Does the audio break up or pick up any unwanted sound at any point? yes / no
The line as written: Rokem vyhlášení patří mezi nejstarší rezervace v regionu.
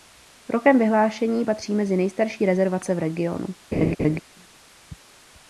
yes